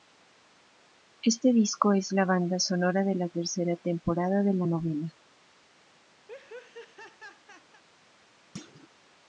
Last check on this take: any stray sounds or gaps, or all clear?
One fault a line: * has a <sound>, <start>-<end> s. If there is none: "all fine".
* has a laugh, 6.3-7.8 s
* has a thud, 8.5-8.9 s